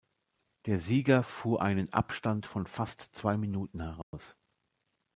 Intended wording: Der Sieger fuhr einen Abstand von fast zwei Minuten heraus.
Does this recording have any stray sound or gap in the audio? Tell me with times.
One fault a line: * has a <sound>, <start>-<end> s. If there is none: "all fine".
* has a dropout, 4.0-4.1 s